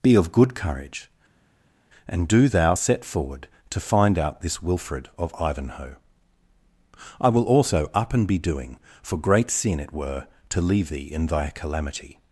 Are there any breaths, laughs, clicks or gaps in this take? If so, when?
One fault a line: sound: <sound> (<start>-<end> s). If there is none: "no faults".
no faults